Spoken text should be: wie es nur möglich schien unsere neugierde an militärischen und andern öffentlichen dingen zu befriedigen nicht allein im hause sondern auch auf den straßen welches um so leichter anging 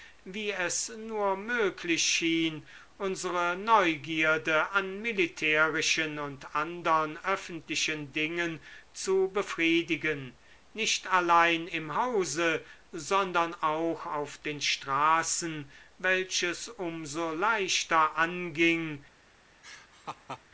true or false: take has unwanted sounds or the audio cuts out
true